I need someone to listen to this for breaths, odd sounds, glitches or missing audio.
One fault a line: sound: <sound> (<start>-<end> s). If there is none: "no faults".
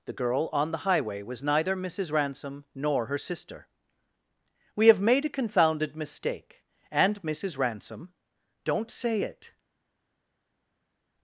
no faults